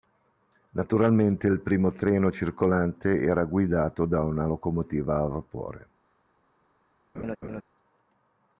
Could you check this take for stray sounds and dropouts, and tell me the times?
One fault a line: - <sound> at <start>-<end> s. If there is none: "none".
- laugh at 7.1-7.6 s